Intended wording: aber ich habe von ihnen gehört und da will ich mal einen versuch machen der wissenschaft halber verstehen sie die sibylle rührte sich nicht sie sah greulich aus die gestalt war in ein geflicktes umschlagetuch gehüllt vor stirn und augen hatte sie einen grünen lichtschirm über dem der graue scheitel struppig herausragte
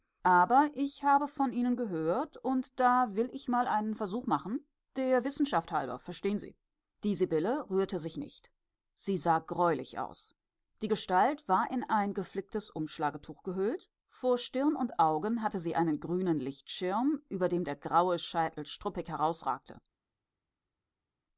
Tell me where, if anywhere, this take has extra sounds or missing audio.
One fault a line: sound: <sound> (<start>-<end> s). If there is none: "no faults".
no faults